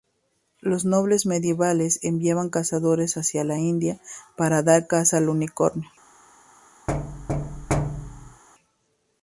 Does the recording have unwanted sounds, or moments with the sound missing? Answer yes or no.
yes